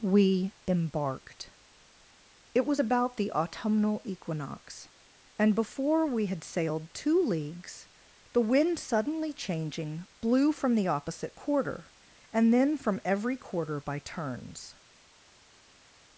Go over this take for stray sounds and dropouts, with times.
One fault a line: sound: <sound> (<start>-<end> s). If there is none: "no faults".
no faults